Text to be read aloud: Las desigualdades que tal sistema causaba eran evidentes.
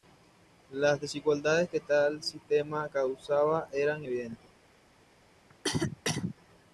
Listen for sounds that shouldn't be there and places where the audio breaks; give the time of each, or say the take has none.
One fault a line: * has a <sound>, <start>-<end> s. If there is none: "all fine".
* has a cough, 5.5-6.3 s